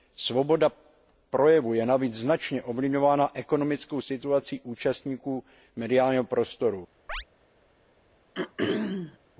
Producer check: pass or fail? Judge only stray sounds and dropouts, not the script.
fail